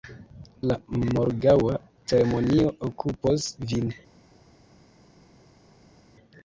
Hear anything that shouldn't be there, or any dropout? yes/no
no